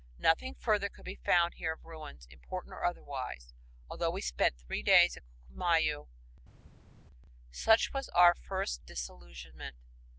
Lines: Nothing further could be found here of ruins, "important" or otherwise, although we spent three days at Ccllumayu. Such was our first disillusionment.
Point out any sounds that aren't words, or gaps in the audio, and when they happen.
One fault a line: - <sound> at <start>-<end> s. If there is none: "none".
none